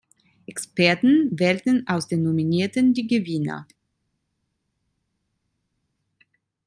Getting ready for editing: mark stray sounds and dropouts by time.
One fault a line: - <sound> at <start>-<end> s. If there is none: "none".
none